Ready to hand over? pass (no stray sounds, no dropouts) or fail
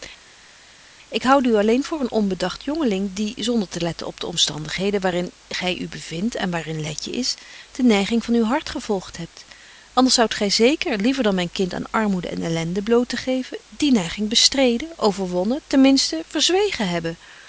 pass